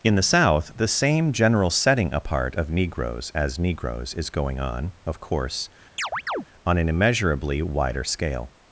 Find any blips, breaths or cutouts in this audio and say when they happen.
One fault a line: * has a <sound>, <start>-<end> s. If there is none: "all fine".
* has a chirp, 6.0-6.5 s